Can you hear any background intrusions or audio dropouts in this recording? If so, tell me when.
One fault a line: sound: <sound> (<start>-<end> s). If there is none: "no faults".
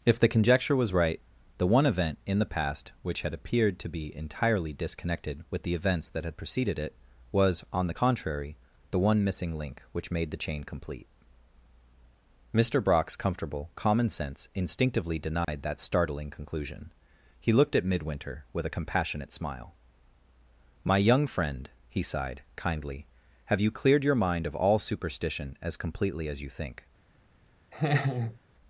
sound: dropout (15.4-15.5 s)
sound: laugh (27.7-28.4 s)